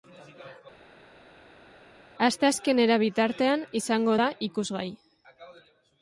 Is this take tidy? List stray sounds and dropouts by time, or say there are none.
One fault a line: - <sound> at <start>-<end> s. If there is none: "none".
none